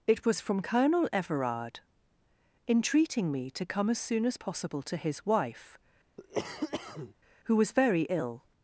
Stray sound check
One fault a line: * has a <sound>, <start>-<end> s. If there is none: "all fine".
* has a cough, 6.2-7.1 s